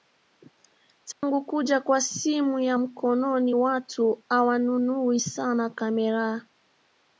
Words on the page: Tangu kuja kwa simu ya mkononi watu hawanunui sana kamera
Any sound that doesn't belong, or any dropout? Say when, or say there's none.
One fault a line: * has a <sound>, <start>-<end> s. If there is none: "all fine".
* has a dropout, 1.1-1.2 s